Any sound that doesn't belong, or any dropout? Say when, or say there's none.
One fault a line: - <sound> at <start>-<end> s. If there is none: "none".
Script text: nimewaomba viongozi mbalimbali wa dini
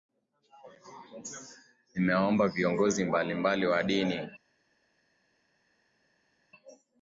none